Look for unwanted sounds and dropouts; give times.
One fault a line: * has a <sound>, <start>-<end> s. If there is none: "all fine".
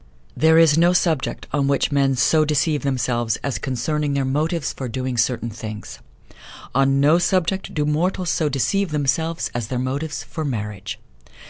all fine